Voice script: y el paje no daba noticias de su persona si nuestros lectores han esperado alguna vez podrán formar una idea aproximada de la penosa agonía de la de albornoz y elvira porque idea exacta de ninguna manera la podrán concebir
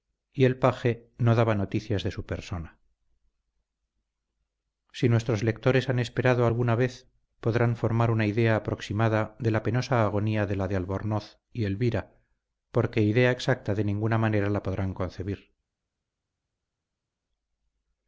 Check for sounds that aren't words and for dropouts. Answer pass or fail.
pass